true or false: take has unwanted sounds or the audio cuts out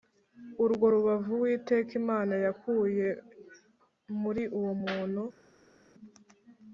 false